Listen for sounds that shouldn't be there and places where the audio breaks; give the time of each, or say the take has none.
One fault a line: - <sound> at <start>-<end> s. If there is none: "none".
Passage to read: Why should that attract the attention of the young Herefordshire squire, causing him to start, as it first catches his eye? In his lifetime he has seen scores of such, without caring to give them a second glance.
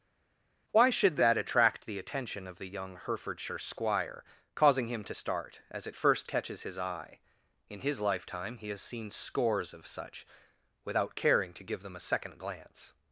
none